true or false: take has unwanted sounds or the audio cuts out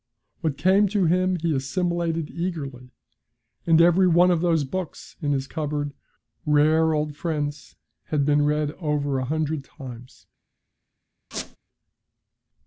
true